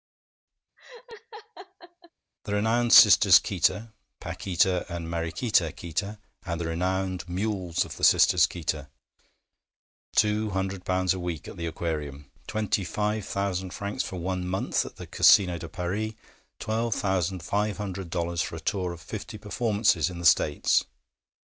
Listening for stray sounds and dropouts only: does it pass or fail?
fail